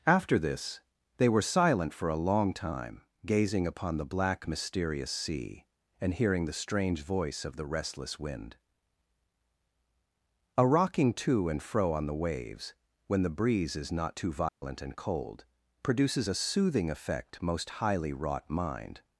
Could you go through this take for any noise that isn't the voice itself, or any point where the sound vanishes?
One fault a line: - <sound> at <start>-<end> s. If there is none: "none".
- dropout at 14.5-14.6 s